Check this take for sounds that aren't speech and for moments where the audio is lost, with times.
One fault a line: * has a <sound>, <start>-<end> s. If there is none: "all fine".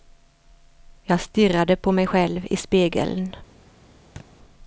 * has a thud, 4.2-4.3 s